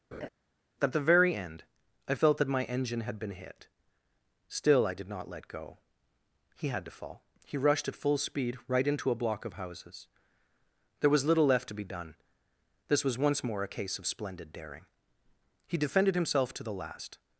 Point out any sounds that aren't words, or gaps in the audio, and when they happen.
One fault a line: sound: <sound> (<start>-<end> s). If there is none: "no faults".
sound: laugh (0.1-0.3 s)